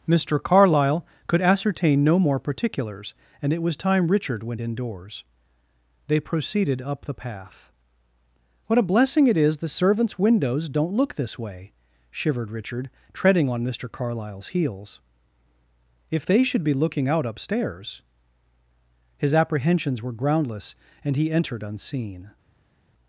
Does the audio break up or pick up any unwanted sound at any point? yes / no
no